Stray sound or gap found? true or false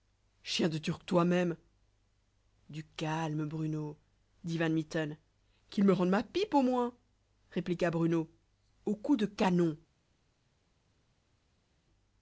false